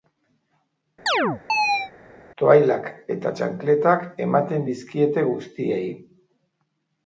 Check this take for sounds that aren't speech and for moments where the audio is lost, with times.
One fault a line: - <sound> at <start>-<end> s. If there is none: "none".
- chirp at 1.1-1.9 s